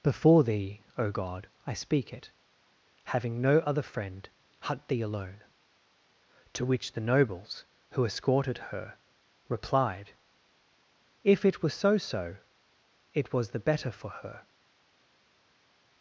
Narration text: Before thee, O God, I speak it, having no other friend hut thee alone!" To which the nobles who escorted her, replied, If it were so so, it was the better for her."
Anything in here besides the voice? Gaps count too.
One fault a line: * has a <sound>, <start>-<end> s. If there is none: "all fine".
all fine